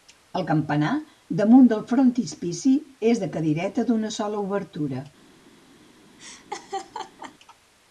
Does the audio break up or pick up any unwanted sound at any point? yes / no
yes